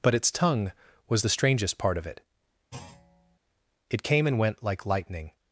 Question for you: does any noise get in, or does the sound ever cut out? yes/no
yes